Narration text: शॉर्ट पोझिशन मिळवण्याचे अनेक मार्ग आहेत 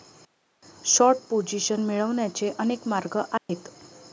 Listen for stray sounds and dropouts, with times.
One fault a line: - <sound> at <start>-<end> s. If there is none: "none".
- dropout at 3.4-3.5 s